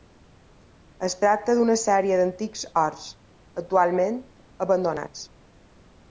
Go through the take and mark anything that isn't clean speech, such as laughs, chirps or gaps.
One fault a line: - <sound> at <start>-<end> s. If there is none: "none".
none